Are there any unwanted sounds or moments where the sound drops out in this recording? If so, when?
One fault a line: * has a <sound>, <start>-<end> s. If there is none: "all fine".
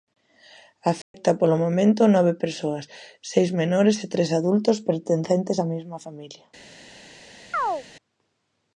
* has a dropout, 1.0-1.1 s
* has a chirp, 7.5-7.8 s